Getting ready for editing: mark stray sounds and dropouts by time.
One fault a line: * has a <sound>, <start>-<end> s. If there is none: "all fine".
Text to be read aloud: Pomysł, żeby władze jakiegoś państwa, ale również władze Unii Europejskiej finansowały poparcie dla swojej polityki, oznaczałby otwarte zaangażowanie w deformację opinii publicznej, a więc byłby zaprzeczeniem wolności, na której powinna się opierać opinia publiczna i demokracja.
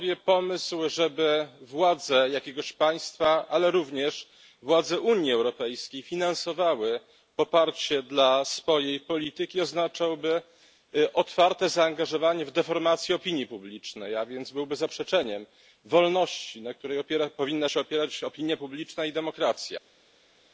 all fine